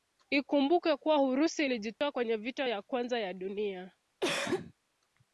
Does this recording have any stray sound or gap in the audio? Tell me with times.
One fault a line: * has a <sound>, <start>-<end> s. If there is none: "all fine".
* has a dropout, 2.0-2.0 s
* has a cough, 4.2-4.7 s